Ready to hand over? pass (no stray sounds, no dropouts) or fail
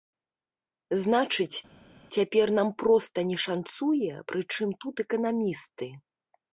pass